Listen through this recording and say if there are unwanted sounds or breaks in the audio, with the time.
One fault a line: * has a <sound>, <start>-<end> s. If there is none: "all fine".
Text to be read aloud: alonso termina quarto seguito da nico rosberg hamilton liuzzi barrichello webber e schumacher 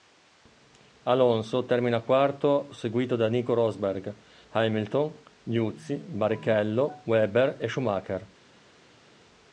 all fine